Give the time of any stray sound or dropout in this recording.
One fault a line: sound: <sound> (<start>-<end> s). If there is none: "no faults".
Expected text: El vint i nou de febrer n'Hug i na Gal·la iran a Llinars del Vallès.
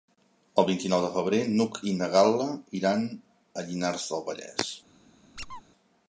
sound: squeak (5.4-5.6 s)